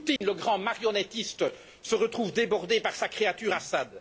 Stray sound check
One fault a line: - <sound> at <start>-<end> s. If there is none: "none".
- dropout at 0.2-0.2 s